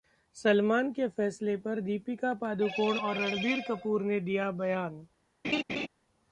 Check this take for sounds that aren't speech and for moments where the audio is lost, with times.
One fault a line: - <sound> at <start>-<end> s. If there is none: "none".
- laugh at 5.4-5.9 s